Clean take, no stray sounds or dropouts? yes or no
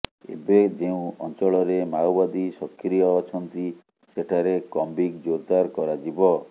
yes